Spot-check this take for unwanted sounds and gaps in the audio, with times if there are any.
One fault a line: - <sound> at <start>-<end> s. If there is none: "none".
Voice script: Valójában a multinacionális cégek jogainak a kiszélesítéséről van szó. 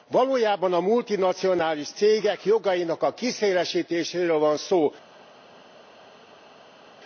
none